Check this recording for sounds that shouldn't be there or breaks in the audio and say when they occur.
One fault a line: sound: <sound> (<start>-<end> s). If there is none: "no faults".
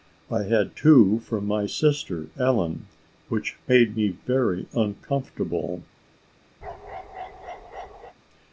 sound: bark (6.6-8.1 s)